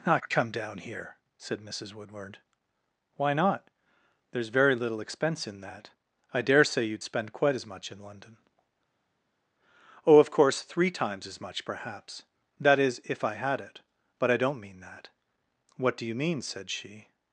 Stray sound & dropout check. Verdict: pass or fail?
pass